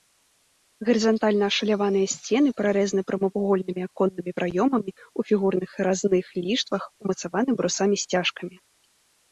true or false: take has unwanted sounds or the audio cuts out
false